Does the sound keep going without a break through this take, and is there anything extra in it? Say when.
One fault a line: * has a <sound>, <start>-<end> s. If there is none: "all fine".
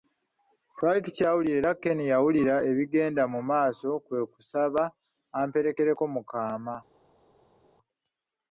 all fine